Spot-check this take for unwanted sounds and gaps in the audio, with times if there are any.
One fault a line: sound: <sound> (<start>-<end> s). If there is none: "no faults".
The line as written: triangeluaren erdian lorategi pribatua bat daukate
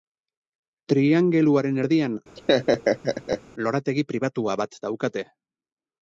sound: laugh (2.4-3.4 s)